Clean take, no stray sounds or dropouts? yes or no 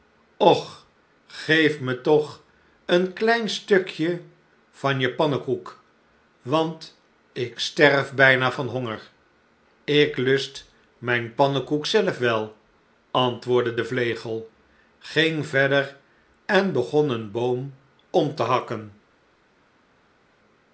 yes